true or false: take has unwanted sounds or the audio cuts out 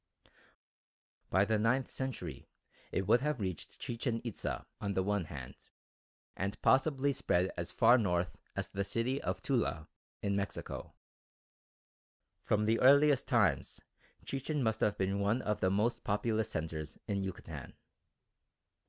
false